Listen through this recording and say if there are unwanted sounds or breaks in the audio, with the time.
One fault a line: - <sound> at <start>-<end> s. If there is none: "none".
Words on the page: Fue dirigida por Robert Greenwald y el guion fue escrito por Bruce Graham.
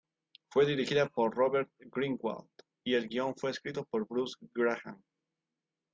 none